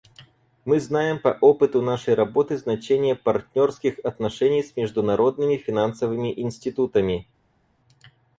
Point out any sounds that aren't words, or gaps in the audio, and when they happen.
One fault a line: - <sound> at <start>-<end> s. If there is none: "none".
none